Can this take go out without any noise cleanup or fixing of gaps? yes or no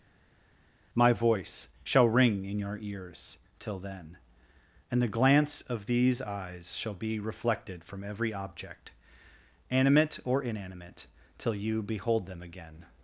yes